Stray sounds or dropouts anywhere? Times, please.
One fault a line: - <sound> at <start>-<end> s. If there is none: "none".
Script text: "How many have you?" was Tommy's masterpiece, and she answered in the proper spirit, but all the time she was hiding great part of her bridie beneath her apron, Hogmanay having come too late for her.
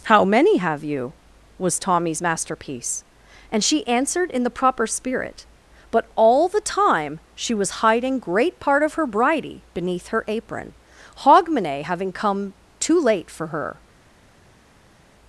none